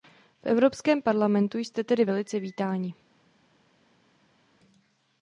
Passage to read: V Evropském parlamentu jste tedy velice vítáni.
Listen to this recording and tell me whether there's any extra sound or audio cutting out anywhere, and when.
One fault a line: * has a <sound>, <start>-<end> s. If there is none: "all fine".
all fine